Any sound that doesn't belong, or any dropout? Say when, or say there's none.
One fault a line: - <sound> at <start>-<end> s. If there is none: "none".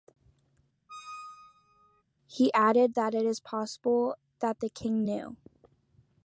- squeak at 0.9-2.0 s